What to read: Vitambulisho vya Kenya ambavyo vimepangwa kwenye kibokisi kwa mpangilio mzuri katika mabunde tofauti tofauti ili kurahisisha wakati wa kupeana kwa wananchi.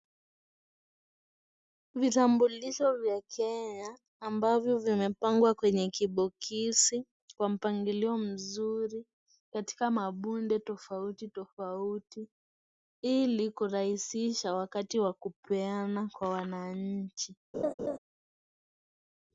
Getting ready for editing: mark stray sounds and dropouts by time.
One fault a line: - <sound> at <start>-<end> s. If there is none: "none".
- laugh at 17.5-18.0 s